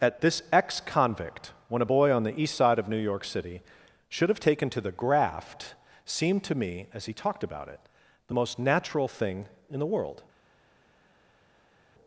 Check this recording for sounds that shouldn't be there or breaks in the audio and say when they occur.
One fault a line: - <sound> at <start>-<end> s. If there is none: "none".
none